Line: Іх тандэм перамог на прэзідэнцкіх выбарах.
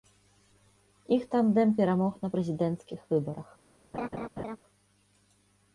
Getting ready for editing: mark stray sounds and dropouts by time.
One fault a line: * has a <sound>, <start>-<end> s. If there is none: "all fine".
* has a laugh, 3.9-4.6 s